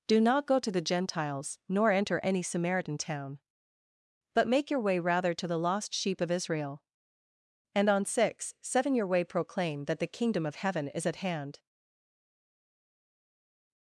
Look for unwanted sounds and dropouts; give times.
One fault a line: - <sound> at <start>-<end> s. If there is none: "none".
none